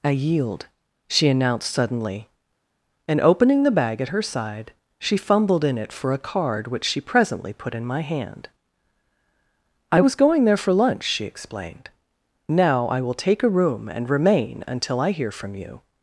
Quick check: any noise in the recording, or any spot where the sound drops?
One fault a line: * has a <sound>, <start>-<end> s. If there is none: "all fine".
all fine